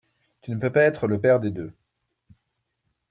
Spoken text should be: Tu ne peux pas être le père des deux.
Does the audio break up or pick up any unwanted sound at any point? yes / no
no